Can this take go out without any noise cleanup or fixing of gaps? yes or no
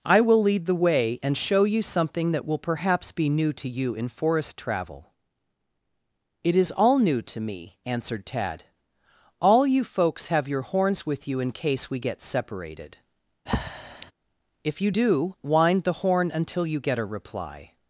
no